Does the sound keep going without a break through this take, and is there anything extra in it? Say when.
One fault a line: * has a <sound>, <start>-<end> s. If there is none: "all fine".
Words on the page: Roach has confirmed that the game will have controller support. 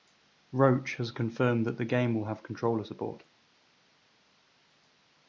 all fine